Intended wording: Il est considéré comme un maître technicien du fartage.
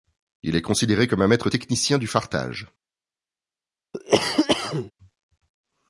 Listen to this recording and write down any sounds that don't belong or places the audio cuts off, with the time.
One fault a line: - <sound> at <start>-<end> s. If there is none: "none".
- cough at 3.9-4.9 s